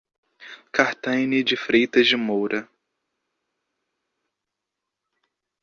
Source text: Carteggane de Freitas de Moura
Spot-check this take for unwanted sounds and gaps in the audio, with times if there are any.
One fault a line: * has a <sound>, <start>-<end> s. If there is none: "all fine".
all fine